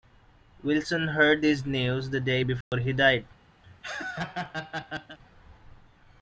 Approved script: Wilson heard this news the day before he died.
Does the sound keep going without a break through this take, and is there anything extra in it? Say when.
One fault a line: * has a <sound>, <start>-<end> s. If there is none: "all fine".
* has a dropout, 2.6-2.7 s
* has a laugh, 3.6-5.2 s